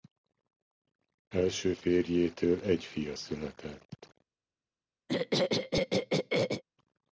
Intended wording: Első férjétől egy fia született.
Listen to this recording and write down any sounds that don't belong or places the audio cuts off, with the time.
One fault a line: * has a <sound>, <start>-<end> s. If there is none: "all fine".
* has a throat clearing, 5.1-6.6 s